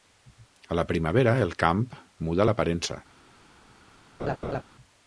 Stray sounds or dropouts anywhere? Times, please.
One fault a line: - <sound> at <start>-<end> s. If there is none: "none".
- laugh at 4.2-4.6 s